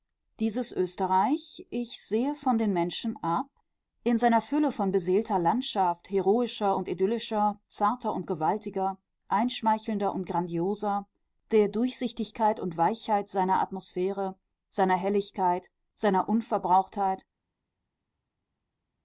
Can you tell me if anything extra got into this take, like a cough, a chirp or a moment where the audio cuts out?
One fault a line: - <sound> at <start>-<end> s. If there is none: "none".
none